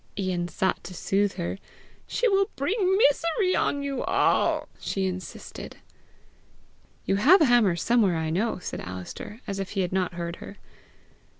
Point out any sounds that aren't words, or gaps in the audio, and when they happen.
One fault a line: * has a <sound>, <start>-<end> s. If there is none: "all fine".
all fine